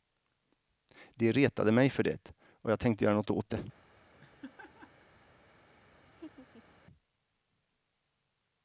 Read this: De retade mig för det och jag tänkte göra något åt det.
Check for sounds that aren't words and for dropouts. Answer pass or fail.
fail